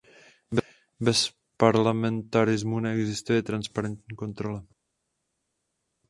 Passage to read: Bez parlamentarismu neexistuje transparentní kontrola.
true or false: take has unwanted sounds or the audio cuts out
false